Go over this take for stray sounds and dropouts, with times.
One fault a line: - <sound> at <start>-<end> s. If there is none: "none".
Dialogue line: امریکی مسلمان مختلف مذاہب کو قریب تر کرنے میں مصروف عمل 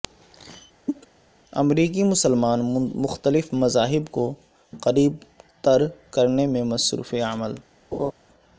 - cough at 0.9-1.1 s
- laugh at 7.9-8.1 s